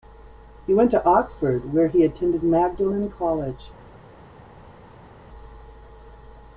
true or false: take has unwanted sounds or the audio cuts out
false